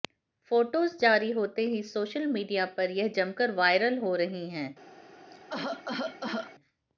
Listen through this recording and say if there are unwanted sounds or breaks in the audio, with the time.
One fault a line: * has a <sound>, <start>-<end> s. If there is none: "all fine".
* has a cough, 5.3-6.6 s